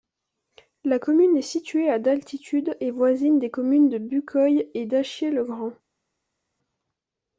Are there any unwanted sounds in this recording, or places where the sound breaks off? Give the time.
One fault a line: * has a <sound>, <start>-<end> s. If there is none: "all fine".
all fine